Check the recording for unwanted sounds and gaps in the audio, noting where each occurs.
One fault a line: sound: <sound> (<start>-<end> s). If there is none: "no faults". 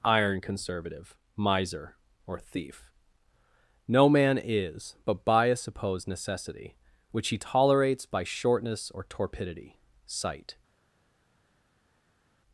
no faults